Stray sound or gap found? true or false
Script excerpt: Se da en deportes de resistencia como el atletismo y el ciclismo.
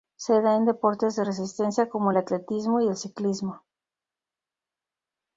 false